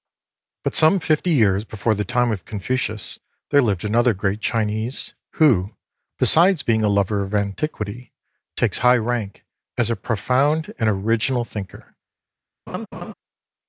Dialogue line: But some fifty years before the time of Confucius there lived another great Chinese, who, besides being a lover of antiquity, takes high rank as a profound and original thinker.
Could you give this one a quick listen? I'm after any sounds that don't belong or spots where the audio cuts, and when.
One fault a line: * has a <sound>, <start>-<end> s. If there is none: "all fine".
* has a laugh, 12.7-13.1 s